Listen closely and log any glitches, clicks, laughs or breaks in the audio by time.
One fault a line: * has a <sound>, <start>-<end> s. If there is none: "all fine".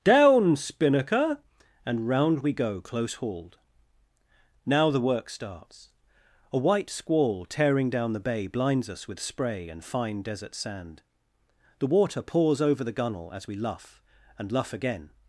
all fine